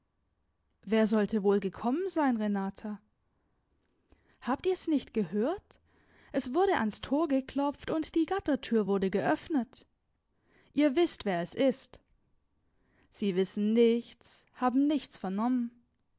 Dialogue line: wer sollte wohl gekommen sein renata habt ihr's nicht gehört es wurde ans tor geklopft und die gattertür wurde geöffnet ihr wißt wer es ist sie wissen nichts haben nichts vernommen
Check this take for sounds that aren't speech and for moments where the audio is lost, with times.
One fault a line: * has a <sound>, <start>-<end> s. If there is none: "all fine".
all fine